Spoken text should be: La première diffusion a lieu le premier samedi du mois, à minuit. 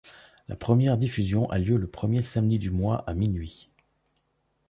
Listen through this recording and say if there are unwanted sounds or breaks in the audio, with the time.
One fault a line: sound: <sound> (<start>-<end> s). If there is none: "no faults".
no faults